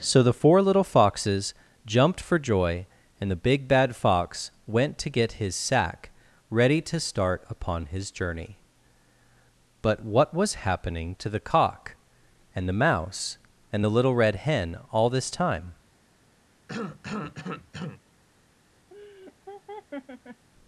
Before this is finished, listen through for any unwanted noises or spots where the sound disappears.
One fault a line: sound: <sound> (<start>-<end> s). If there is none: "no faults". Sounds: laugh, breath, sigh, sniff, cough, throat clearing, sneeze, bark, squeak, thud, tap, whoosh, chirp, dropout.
sound: cough (16.7-18.0 s)
sound: laugh (18.9-20.5 s)